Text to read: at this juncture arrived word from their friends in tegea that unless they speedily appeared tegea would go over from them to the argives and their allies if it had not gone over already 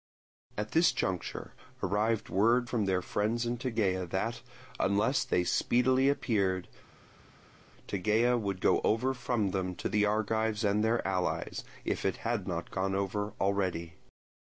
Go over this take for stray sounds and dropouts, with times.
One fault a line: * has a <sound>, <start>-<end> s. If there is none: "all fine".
all fine